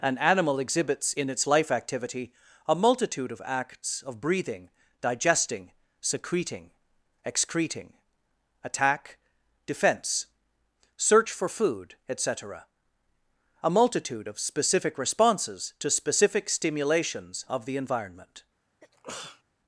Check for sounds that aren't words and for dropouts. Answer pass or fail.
fail